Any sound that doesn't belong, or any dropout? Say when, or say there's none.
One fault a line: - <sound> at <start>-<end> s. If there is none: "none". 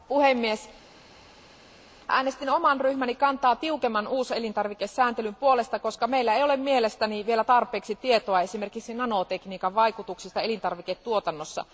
none